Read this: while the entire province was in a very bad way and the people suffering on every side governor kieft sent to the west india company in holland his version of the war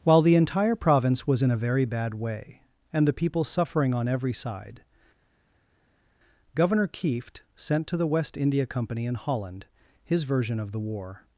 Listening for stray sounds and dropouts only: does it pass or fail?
pass